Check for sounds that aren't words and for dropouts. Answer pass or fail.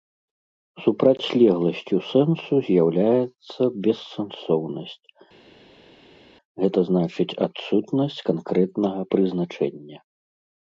pass